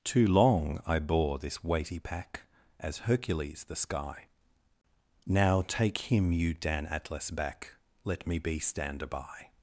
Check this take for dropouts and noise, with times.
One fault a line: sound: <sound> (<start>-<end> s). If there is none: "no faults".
no faults